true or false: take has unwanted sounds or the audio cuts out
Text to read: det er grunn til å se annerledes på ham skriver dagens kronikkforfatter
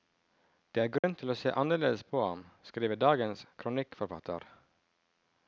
true